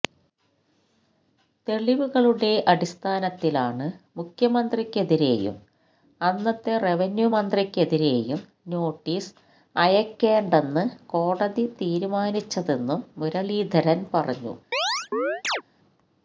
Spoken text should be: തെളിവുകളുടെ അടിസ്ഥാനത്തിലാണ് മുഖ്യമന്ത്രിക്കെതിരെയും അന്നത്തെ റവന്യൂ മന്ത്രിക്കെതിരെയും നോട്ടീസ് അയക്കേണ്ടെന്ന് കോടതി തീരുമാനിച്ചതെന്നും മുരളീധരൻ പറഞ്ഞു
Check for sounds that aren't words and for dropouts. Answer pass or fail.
fail